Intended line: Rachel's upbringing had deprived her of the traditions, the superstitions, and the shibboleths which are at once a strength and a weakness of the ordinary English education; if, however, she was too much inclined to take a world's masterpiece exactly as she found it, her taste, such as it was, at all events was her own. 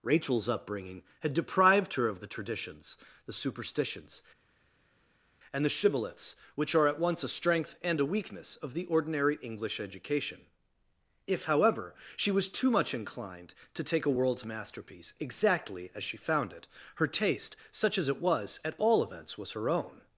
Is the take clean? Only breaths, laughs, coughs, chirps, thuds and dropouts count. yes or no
yes